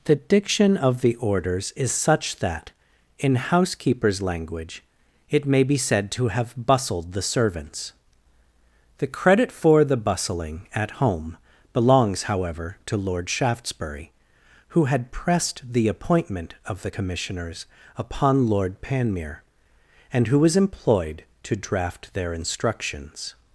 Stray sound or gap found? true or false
false